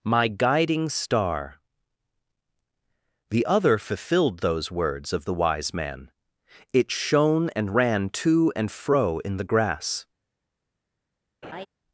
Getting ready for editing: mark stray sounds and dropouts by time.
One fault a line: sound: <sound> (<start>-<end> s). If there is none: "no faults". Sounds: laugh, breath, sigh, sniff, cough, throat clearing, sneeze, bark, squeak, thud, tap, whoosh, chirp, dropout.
sound: laugh (11.4-11.7 s)